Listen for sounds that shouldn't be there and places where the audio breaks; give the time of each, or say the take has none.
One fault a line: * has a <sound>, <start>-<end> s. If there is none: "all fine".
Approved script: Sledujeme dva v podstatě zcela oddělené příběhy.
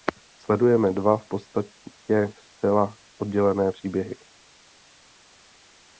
all fine